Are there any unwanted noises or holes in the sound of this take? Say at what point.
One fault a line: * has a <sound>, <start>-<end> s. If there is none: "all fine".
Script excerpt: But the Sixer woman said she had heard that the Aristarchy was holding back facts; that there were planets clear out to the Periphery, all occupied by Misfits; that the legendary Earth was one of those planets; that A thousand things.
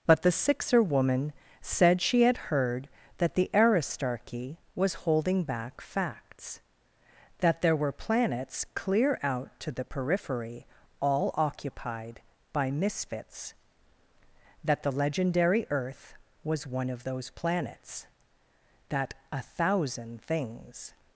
all fine